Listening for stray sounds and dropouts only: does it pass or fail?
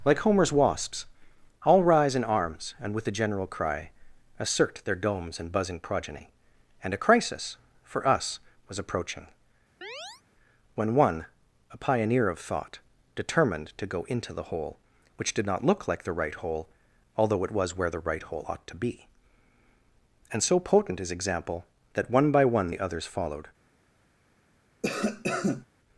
fail